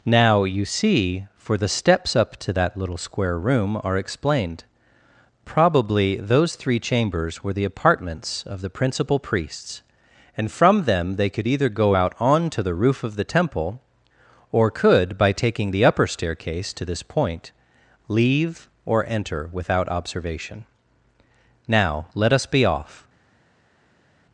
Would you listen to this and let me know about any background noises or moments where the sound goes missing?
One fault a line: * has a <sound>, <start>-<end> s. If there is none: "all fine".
all fine